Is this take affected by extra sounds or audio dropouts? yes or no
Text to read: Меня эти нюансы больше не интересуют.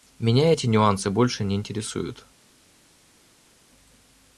no